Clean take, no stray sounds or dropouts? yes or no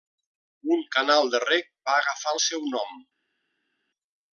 yes